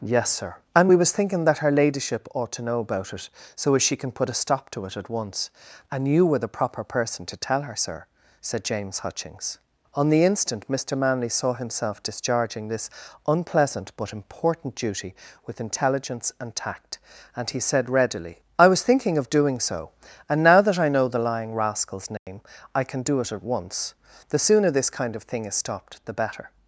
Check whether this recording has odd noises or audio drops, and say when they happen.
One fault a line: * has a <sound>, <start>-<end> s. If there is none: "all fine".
* has a dropout, 22.2-22.3 s